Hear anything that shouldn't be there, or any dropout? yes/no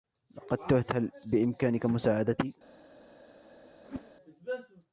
yes